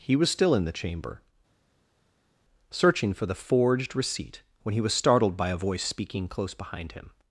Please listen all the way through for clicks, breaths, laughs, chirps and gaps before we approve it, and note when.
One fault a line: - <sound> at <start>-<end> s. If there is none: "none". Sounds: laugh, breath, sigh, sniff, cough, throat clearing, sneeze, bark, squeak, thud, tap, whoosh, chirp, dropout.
none